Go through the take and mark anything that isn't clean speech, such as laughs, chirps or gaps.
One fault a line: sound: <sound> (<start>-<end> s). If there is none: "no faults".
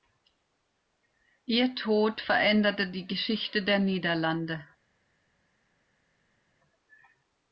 no faults